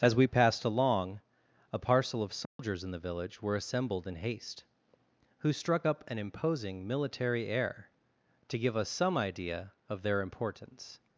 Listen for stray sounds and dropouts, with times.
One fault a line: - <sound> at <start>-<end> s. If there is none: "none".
- dropout at 2.4-2.6 s